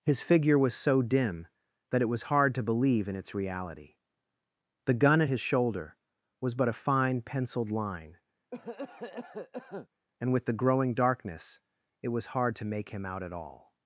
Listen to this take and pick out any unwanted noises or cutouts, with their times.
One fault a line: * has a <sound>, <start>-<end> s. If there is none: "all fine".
* has a cough, 8.5-9.9 s